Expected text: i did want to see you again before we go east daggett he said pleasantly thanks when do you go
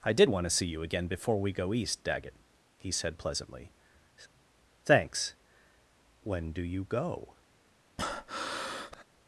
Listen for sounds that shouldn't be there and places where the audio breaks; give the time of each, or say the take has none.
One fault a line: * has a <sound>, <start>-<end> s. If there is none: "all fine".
* has a breath, 8.0-9.0 s